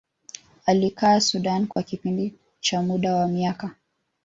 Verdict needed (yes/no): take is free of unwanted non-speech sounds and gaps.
no